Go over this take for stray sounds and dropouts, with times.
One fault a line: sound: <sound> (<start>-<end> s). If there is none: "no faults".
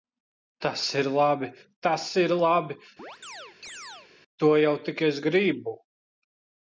sound: chirp (3.0-4.1 s)